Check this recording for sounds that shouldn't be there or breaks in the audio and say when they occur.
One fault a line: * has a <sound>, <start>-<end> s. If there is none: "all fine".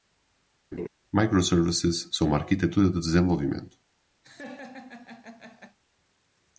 * has a laugh, 0.7-0.9 s
* has a laugh, 4.2-5.8 s